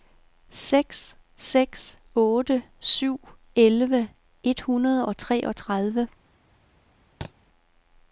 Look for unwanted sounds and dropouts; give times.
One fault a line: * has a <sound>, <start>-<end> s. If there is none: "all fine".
* has a thud, 7.2-7.3 s